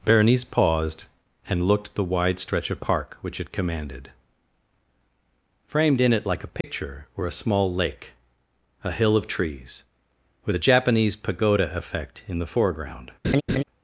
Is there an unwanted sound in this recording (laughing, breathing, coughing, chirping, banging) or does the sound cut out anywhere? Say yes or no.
yes